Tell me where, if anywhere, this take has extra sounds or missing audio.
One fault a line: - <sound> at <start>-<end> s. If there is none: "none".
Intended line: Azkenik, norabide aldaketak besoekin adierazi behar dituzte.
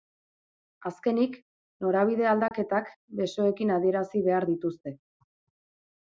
- dropout at 2.5-2.5 s